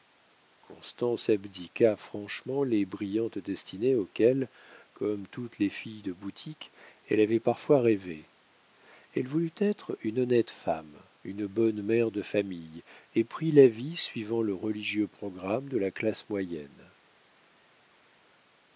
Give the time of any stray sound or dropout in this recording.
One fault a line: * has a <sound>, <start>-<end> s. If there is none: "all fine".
all fine